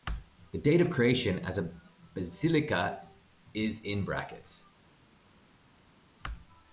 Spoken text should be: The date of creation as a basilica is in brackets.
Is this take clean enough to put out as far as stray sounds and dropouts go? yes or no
yes